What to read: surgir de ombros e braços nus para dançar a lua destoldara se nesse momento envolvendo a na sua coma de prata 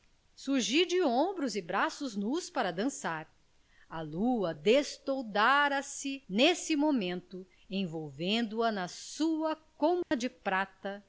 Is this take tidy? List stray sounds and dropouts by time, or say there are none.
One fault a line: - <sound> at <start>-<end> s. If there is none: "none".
- dropout at 10.0-10.1 s